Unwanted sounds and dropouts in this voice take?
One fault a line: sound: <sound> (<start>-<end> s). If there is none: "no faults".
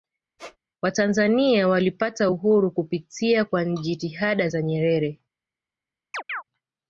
sound: squeak (0.4-0.6 s)
sound: chirp (6.1-6.4 s)